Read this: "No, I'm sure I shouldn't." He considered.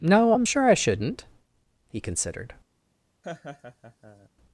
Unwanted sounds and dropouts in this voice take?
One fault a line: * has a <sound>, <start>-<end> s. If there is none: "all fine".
* has a laugh, 3.2-4.3 s